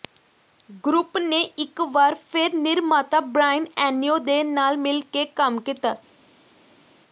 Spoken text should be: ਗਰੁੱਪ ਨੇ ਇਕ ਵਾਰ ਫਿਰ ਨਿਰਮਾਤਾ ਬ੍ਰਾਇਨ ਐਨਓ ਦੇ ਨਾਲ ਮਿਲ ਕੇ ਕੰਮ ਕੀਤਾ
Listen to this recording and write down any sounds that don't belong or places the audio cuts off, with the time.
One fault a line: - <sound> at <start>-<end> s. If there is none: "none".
none